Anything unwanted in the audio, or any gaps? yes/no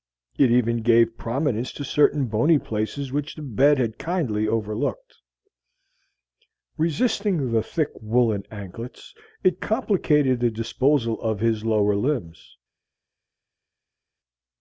no